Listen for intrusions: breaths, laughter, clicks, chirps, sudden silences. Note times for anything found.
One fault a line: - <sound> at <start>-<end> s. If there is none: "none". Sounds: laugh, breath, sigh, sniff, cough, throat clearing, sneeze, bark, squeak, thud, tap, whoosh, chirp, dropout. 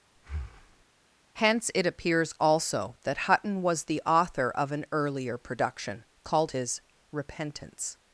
- breath at 0.2-0.9 s